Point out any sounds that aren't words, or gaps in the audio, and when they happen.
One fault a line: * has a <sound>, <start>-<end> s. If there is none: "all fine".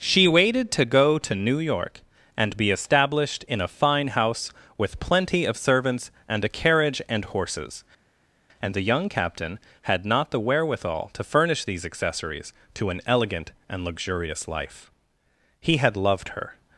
all fine